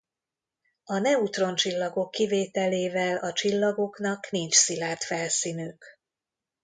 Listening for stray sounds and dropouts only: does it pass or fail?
pass